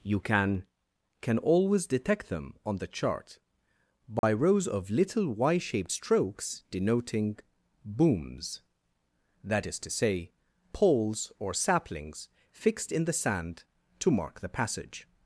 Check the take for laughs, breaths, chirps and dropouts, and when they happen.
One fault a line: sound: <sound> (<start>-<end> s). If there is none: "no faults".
sound: dropout (4.2-4.2 s)